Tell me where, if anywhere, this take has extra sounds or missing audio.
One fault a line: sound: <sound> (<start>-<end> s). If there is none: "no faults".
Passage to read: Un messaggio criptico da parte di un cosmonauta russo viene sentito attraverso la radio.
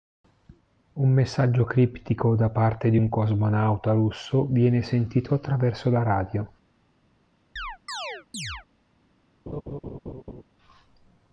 sound: chirp (7.6-8.7 s)
sound: laugh (9.5-10.4 s)